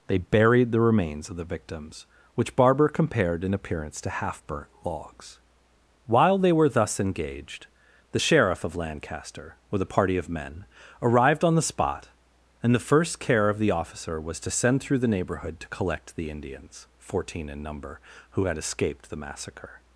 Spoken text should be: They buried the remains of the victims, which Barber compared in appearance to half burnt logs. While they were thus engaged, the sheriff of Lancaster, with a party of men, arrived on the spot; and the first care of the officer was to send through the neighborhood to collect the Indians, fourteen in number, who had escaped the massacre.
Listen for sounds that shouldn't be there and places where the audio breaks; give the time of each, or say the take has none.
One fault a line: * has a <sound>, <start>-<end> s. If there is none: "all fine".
all fine